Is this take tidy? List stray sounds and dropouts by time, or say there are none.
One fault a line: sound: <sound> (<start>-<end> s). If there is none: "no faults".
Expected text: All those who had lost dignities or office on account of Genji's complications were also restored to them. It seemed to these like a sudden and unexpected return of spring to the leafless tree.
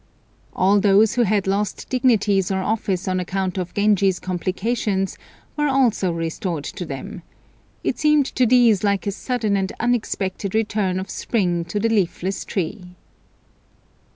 no faults